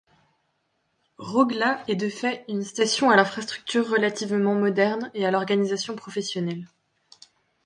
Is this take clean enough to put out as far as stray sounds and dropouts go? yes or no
yes